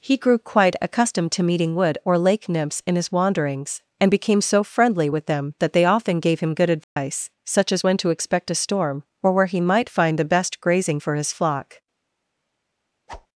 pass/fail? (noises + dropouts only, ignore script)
fail